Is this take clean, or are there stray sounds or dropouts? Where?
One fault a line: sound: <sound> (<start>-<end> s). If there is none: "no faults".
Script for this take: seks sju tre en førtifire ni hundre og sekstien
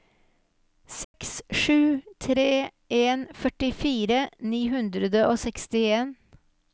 sound: dropout (1.0-1.1 s)